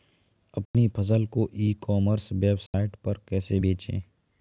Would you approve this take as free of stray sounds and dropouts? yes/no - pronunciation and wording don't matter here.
no